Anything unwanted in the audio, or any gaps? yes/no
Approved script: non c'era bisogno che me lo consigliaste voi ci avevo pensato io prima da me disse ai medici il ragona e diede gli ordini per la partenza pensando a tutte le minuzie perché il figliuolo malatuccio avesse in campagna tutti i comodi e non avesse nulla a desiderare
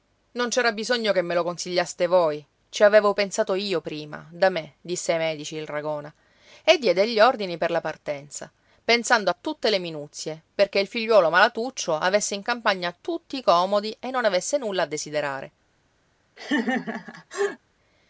yes